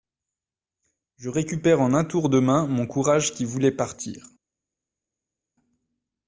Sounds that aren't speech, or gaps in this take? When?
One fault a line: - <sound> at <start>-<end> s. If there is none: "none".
none